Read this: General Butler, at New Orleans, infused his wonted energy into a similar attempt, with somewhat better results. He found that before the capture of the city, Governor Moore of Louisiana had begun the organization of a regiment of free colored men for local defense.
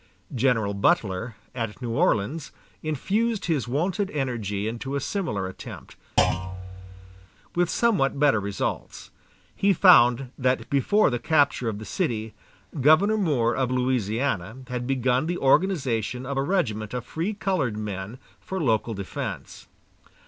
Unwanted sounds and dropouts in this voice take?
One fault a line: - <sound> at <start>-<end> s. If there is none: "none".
- thud at 6.2-7.3 s